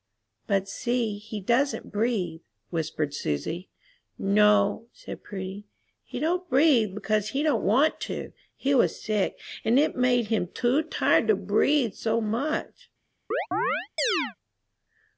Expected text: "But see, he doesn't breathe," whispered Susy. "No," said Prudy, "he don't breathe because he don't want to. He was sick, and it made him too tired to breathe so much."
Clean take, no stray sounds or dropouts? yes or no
no